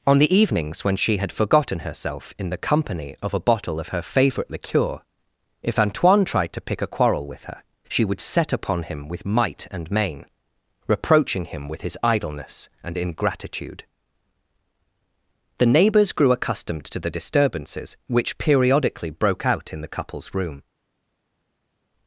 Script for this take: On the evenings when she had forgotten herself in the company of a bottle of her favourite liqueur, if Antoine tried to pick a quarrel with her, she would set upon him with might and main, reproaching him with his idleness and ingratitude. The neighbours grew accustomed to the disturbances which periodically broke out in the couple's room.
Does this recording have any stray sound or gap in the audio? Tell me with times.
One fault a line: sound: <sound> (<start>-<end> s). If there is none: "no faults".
no faults